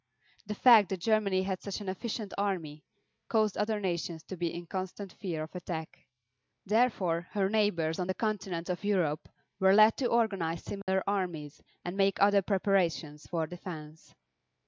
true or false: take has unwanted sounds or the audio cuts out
true